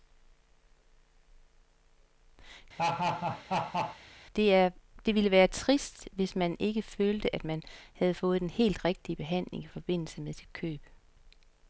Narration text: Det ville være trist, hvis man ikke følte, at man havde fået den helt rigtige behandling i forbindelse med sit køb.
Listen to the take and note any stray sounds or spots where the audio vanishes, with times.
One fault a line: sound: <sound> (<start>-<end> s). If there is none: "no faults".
sound: laugh (2.8-4.0 s)